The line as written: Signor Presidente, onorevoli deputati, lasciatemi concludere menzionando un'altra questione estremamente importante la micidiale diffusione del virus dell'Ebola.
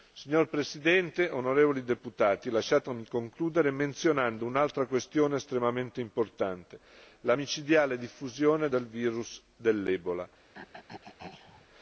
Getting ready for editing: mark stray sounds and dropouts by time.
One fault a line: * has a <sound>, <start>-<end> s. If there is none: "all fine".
* has a throat clearing, 10.5-11.7 s